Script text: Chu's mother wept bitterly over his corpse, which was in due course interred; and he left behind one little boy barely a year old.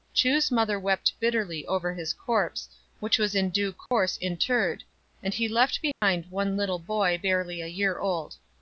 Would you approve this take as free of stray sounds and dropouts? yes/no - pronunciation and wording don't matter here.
no